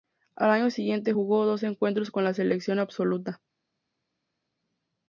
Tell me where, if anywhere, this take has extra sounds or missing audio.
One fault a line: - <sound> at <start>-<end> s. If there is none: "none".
none